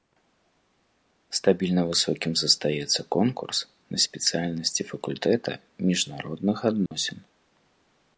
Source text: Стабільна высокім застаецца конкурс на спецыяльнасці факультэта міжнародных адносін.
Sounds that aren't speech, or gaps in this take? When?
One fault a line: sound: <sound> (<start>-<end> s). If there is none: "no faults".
sound: dropout (6.9-6.9 s)